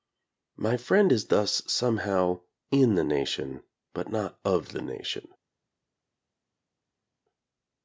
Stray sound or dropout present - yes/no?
no